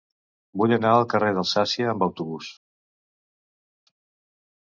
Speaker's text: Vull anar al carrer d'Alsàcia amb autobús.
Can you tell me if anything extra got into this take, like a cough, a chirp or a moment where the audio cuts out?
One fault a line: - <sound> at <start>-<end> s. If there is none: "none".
none